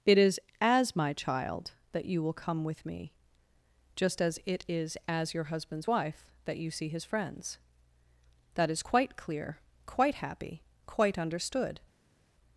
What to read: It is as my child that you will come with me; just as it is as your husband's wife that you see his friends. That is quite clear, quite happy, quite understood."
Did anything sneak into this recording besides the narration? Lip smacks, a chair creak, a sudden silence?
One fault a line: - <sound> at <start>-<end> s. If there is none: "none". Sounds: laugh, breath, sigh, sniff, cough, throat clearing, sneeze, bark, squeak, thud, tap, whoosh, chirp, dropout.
none